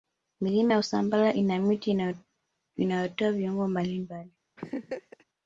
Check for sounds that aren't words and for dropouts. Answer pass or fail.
fail